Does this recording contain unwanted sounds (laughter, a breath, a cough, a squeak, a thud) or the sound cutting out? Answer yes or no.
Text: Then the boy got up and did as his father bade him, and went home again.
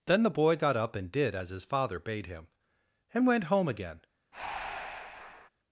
yes